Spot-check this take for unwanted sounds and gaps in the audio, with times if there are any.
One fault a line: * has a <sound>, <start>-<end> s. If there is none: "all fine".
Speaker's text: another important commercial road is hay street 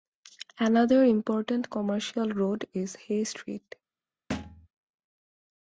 * has a thud, 4.3-4.7 s